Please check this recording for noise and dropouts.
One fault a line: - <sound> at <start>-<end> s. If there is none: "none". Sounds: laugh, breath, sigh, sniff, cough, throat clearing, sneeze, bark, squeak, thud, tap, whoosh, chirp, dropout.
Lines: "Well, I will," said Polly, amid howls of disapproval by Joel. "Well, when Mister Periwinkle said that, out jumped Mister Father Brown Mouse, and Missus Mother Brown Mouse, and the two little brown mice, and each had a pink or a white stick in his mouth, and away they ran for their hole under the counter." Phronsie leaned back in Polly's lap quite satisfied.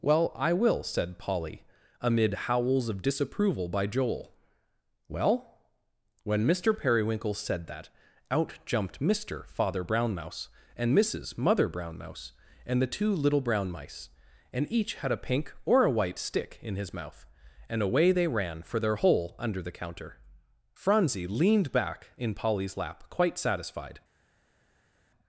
none